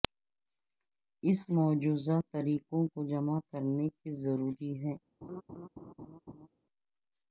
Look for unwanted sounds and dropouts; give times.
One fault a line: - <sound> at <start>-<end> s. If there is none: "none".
- laugh at 5.2-6.5 s